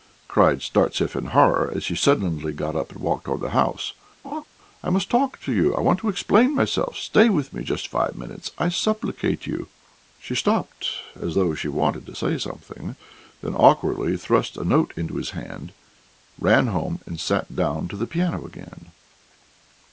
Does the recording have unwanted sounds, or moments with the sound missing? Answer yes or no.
yes